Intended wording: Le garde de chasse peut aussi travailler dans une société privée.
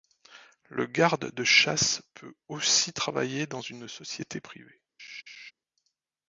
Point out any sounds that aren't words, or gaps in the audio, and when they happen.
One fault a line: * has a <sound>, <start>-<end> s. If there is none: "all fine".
* has a laugh, 5.0-5.5 s